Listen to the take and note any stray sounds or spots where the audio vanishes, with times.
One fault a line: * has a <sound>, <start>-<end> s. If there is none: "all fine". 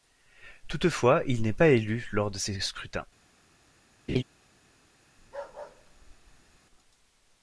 * has a laugh, 4.1-4.2 s
* has a bark, 5.2-6.6 s